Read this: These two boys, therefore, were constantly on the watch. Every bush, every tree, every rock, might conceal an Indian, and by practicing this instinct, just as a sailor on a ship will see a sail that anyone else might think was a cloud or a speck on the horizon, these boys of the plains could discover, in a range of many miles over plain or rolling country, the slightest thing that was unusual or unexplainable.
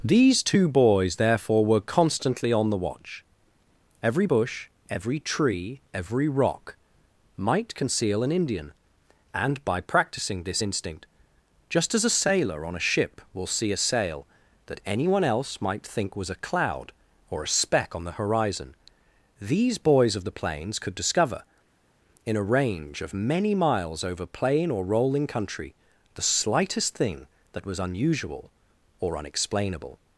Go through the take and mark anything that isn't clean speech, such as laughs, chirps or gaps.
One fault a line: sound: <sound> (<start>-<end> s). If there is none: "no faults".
no faults